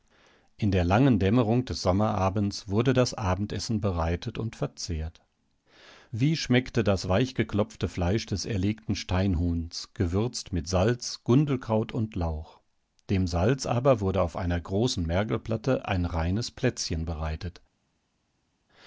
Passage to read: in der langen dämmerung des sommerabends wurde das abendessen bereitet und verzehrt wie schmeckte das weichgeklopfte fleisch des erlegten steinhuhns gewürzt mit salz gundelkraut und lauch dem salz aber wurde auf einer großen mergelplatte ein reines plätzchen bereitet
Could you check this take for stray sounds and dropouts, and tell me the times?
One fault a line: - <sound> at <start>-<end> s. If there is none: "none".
none